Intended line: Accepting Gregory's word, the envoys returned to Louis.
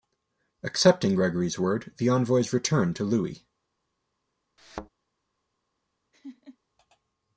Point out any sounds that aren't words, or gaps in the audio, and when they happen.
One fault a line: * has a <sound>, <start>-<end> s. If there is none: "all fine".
* has a thud, 4.6-4.9 s
* has a laugh, 6.1-6.6 s